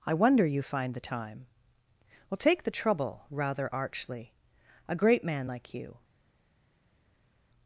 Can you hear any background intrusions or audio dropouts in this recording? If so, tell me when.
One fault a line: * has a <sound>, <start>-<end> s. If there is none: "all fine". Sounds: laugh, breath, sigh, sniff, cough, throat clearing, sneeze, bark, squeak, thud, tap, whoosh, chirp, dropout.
all fine